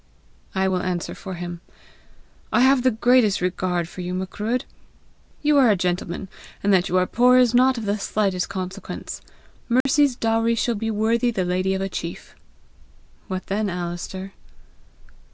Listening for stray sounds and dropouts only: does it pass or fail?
fail